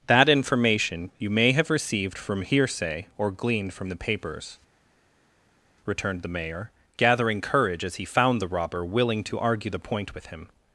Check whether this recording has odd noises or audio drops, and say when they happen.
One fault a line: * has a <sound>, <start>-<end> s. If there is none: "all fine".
all fine